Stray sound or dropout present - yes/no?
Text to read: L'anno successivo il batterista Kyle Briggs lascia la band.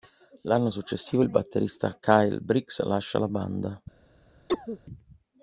yes